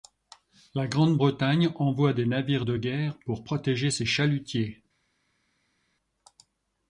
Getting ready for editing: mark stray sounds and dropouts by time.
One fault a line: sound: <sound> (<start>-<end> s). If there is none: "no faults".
no faults